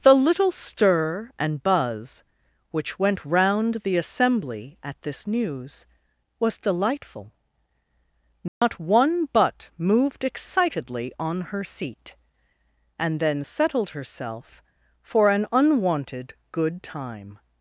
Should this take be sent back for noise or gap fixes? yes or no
yes